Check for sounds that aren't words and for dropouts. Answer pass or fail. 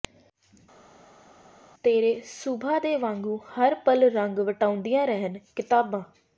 pass